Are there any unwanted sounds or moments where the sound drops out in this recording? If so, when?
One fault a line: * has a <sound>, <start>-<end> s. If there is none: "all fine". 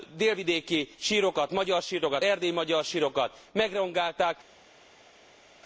all fine